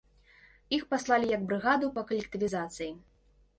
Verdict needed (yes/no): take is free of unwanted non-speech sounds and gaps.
yes